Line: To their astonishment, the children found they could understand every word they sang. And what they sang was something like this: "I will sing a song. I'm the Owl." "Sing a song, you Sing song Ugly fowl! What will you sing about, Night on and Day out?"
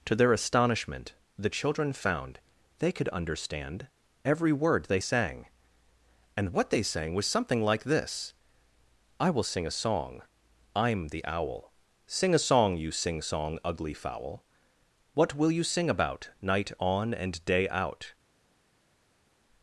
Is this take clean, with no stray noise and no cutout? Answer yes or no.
yes